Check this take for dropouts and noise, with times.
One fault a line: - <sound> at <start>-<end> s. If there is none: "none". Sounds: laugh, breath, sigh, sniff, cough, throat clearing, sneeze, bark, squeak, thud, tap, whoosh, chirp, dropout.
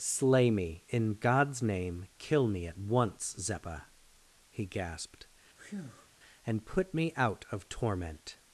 - breath at 5.6-6.1 s